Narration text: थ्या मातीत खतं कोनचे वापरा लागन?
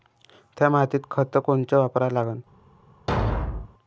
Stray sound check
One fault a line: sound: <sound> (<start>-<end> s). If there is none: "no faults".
sound: thud (3.1-3.7 s)